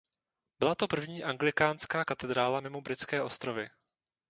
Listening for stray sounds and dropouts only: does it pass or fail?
pass